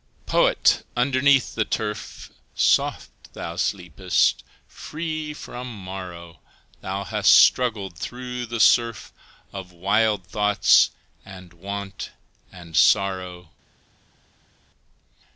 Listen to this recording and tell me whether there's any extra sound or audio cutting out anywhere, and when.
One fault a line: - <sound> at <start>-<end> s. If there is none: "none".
none